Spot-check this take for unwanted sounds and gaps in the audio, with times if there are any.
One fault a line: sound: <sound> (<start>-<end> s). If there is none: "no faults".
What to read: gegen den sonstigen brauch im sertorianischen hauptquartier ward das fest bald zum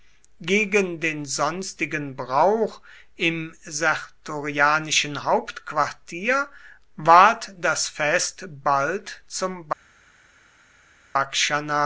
no faults